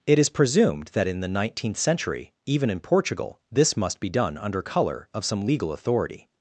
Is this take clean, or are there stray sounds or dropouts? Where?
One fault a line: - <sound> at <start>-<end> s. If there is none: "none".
none